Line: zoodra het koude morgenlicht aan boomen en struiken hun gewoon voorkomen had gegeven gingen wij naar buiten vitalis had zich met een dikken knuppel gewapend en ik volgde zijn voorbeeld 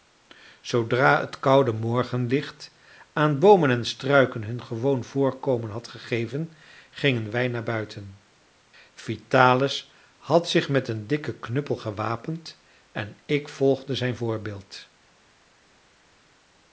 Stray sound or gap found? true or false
false